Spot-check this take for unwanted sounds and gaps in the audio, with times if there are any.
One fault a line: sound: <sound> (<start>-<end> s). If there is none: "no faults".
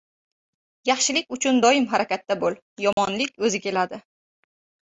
sound: dropout (2.9-3.0 s)